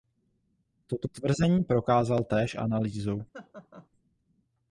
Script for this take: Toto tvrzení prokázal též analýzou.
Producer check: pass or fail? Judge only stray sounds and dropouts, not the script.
fail